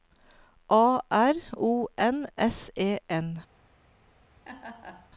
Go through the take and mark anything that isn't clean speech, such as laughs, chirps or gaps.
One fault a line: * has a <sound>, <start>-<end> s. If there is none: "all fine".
* has a laugh, 4.4-5.1 s